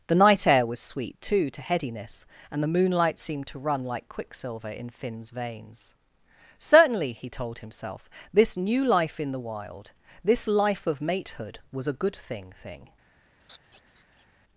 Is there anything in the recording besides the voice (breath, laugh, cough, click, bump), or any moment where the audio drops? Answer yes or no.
yes